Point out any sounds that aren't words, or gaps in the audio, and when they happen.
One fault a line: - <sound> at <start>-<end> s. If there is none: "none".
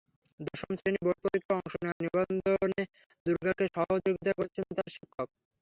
- dropout at 1.9-2.0 s